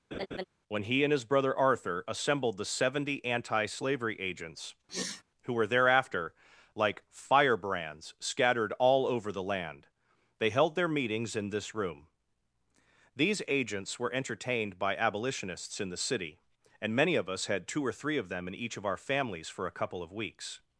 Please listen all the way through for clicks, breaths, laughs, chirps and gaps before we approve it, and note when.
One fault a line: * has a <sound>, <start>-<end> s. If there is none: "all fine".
* has a laugh, 0.1-0.4 s
* has a sniff, 4.9-5.2 s